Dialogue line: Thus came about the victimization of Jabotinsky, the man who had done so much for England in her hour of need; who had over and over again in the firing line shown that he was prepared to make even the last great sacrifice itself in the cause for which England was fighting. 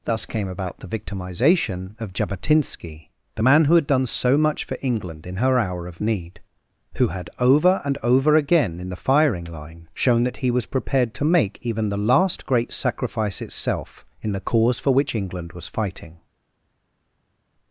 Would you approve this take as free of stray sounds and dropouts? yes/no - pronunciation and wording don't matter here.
yes